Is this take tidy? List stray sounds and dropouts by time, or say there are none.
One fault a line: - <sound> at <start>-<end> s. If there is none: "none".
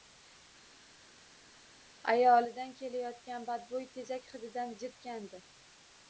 none